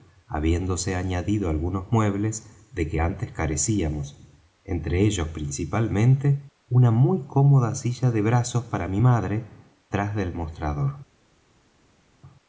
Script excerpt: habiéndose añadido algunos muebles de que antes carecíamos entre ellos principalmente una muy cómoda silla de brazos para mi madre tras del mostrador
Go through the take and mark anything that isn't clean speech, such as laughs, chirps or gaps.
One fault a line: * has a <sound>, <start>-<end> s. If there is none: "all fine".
all fine